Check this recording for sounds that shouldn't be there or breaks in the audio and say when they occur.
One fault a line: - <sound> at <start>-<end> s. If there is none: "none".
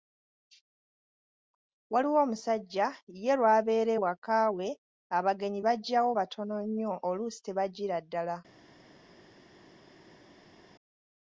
none